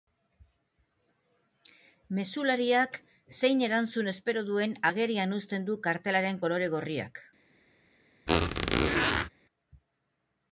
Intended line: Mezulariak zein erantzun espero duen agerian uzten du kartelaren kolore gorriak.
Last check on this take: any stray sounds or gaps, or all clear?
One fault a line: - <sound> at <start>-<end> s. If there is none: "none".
- squeak at 8.3-9.3 s